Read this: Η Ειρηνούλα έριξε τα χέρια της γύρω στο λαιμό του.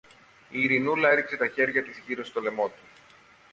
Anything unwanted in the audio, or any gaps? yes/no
no